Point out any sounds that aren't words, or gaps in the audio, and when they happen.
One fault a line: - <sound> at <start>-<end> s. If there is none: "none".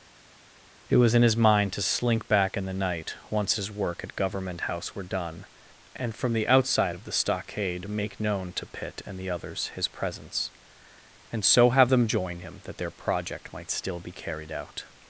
none